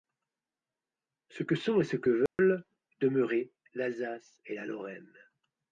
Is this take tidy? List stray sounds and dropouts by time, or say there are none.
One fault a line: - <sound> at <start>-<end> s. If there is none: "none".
- dropout at 2.3-2.4 s